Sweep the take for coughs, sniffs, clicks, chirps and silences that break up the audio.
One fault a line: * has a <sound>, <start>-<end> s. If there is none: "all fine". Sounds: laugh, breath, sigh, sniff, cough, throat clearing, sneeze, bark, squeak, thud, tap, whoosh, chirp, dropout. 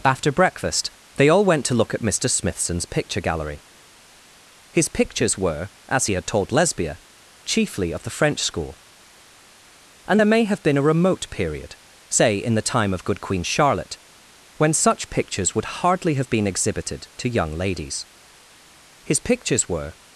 all fine